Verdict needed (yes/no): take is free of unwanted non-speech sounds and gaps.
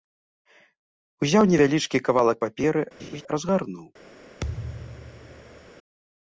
no